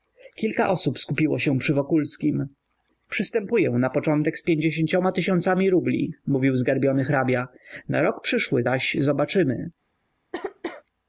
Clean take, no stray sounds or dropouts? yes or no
no